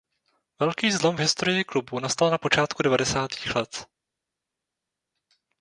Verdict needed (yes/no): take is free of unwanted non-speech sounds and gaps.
yes